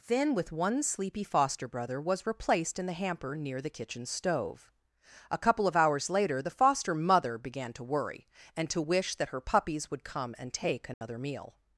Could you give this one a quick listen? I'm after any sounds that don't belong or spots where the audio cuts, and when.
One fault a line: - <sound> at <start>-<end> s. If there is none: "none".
- dropout at 10.9-11.0 s